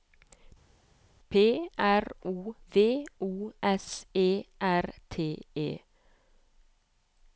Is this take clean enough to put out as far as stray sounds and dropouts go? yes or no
yes